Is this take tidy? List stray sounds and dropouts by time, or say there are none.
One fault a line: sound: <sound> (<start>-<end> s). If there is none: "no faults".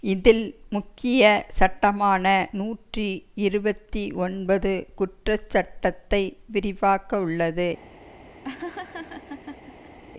sound: laugh (8.4-10.0 s)